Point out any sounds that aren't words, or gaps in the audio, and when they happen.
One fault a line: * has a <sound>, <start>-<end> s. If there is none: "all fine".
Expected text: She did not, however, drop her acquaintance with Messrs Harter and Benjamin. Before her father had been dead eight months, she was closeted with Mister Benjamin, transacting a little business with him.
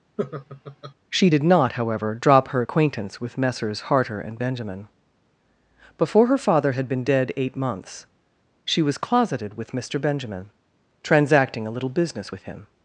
* has a laugh, 0.2-0.9 s